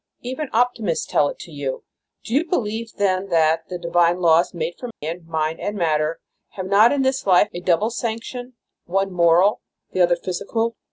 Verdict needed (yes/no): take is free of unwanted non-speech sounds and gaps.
no